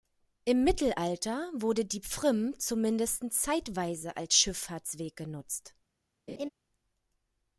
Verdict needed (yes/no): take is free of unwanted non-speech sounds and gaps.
no